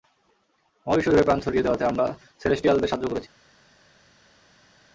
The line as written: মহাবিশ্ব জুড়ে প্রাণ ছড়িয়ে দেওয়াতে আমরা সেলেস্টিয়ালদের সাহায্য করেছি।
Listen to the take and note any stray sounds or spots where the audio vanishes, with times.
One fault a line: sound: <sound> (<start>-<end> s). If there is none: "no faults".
no faults